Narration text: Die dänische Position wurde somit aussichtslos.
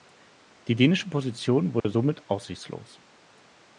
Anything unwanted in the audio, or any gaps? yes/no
yes